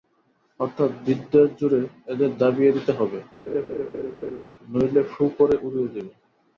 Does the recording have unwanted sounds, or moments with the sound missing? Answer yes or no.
yes